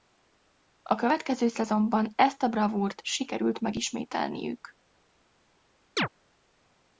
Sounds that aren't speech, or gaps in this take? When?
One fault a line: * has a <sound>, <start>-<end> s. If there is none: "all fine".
* has a chirp, 6.0-6.1 s